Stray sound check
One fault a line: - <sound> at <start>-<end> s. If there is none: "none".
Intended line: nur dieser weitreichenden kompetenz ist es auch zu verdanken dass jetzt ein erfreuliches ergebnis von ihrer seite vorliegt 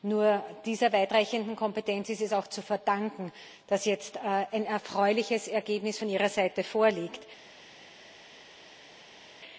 none